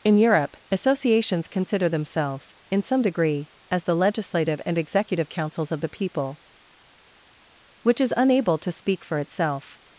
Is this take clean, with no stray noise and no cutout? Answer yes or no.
yes